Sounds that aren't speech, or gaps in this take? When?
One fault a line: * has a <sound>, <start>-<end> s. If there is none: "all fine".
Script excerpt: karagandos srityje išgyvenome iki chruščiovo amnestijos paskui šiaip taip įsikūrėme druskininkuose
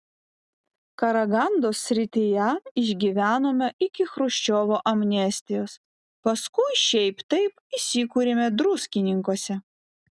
all fine